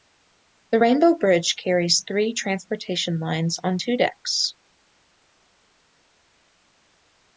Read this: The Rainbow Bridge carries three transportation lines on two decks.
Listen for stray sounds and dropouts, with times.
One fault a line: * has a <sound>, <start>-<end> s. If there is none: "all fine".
all fine